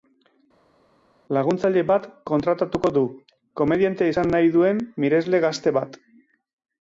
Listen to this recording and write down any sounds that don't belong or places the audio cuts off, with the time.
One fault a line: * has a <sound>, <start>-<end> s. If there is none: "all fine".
all fine